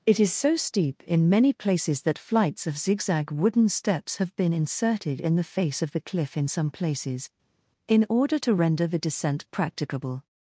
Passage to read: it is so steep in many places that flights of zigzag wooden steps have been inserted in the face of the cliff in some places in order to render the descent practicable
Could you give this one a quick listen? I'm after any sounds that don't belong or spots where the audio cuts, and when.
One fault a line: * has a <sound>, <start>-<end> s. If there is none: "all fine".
all fine